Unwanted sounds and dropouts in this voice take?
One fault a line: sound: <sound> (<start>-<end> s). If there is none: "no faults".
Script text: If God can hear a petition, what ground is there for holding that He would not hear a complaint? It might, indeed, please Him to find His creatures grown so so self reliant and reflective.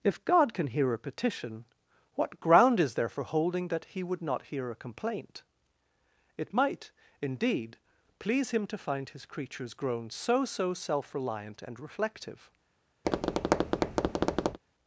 sound: tap (13.0-14.6 s)